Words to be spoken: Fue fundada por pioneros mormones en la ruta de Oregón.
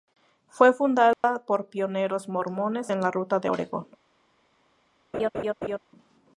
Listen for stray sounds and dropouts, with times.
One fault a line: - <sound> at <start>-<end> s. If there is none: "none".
- dropout at 1.1-1.2 s
- laugh at 5.1-5.8 s